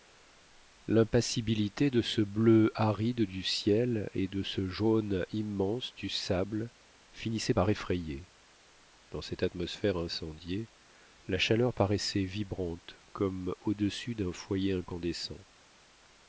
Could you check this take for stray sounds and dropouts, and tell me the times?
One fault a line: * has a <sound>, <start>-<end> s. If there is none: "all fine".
all fine